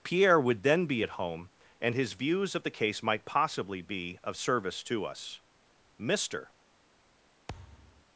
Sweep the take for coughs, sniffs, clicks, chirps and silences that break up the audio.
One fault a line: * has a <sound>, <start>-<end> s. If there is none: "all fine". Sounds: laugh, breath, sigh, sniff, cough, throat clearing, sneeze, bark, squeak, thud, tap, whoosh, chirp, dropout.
* has a thud, 7.5-8.1 s